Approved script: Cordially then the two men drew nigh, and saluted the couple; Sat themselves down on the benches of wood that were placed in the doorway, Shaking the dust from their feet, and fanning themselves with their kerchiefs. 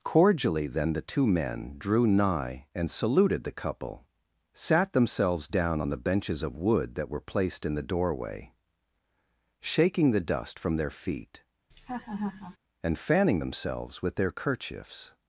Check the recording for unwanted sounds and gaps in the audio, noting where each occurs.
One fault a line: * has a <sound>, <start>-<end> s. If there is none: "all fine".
* has a laugh, 11.7-12.6 s